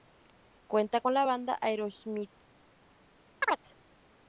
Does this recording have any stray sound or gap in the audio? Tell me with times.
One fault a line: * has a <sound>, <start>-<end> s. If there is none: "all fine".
* has a chirp, 3.4-3.6 s